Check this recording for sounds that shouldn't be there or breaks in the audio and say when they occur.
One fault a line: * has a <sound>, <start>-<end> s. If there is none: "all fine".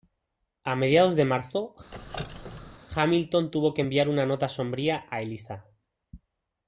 * has a squeak, 1.9-2.8 s